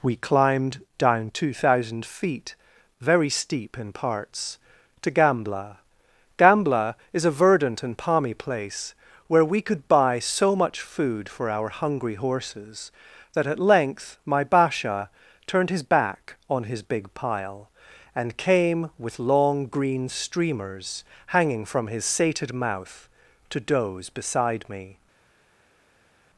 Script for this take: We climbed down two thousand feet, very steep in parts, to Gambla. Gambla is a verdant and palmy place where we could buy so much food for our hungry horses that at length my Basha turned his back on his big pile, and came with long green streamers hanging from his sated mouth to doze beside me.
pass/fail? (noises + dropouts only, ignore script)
pass